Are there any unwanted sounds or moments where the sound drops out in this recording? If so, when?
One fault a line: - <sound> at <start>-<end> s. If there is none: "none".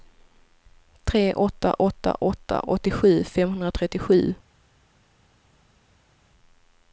none